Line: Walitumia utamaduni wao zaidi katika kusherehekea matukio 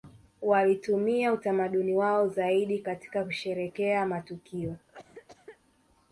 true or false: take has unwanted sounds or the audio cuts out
true